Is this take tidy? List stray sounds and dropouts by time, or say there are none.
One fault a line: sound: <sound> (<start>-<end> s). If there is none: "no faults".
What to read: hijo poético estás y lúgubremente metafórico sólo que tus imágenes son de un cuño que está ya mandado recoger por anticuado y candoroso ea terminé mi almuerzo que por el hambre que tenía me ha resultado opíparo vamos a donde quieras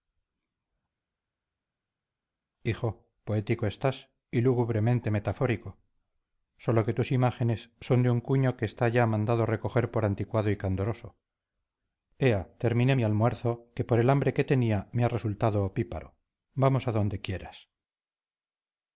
no faults